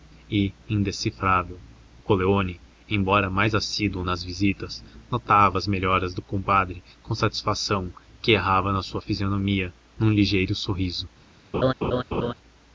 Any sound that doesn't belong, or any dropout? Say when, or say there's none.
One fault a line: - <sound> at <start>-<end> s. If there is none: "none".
- laugh at 11.5-12.3 s